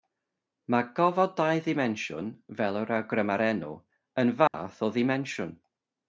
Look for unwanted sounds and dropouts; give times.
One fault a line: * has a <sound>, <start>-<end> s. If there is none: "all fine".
* has a dropout, 4.5-4.5 s